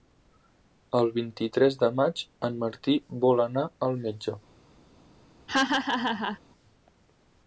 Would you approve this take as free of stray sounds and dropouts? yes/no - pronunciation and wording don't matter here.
no